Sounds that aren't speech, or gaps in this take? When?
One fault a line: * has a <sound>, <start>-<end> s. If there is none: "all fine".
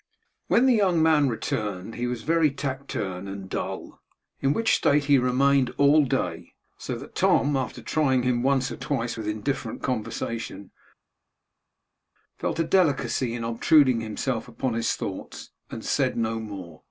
all fine